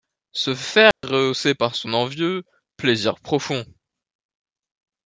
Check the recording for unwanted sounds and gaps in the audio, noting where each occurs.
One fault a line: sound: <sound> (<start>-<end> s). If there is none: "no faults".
sound: dropout (0.9-1.0 s)